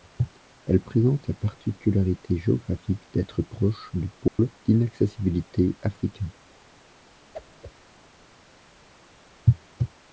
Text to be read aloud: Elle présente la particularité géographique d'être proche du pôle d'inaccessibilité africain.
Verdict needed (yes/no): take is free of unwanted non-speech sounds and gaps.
no